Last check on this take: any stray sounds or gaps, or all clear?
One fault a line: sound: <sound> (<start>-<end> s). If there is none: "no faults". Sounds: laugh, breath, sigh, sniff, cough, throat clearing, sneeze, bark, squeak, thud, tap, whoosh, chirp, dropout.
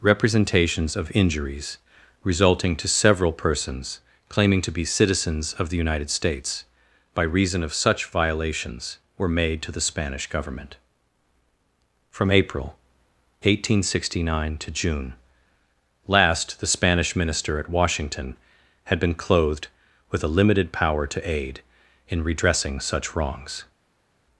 no faults